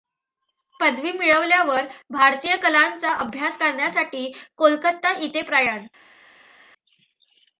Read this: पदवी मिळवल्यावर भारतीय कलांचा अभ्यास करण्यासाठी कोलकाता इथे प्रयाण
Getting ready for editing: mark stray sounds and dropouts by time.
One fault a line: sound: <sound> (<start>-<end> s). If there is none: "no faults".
no faults